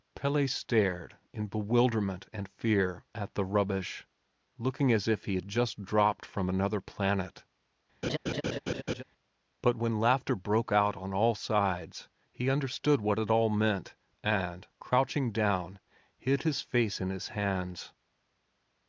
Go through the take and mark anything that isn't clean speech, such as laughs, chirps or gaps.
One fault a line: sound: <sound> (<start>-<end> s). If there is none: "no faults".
sound: laugh (8.0-9.0 s)